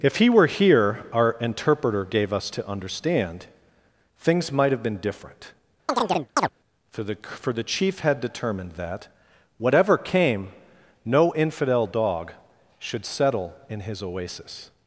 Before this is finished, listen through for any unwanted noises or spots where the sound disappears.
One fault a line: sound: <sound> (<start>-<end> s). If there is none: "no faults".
sound: chirp (5.9-6.5 s)